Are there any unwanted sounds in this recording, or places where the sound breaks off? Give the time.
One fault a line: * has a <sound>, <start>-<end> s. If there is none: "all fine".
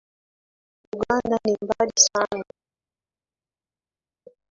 all fine